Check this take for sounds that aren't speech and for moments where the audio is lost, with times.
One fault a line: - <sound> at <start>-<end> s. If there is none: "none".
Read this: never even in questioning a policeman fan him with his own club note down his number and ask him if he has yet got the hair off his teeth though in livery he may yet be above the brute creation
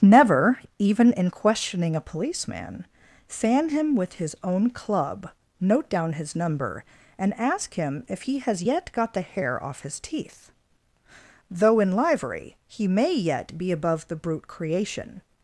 none